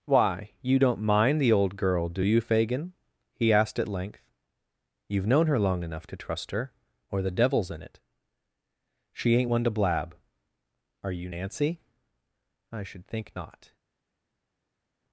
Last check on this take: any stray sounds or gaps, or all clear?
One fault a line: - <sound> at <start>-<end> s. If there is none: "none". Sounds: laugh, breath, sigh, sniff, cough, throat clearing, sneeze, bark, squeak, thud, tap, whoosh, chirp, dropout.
none